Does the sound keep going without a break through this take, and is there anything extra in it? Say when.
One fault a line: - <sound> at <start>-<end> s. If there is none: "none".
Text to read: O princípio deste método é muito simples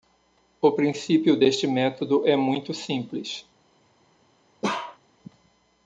- bark at 4.6-5.0 s